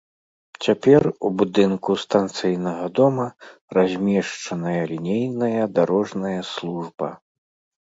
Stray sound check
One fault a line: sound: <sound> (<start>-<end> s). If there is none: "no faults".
no faults